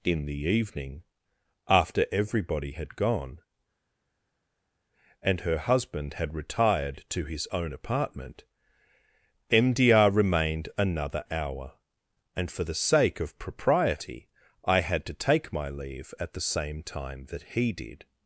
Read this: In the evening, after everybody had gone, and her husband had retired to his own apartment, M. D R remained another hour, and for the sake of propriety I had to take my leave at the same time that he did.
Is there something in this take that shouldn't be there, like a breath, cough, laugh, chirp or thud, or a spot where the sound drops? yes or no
no